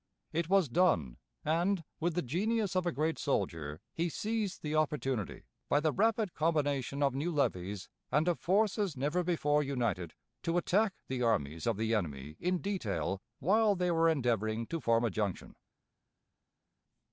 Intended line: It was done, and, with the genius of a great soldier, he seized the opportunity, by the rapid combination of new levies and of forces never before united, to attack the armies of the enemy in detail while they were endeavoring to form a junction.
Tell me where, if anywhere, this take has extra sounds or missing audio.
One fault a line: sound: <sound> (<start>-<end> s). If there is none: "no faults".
no faults